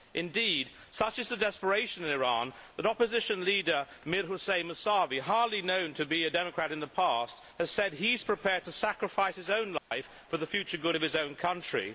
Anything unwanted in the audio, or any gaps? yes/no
yes